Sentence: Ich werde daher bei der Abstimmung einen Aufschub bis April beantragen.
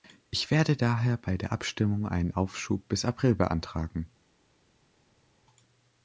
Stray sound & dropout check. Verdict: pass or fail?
pass